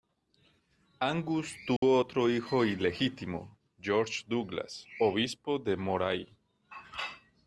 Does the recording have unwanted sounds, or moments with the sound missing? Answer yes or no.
yes